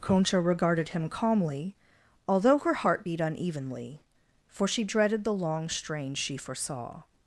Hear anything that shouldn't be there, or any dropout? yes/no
no